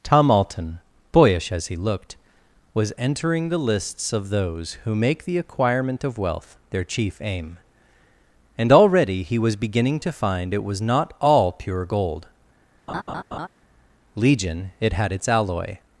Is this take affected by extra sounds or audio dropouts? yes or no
yes